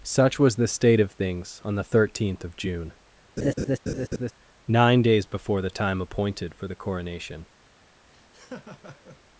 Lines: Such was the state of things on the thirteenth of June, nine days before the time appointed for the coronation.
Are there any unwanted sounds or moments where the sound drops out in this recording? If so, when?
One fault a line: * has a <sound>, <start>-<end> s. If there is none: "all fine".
* has a laugh, 3.4-4.3 s
* has a laugh, 8.1-9.2 s